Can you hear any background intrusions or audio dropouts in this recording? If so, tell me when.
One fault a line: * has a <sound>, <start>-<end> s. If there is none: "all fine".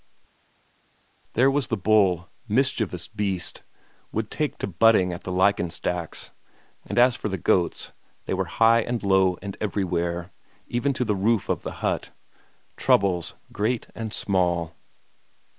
all fine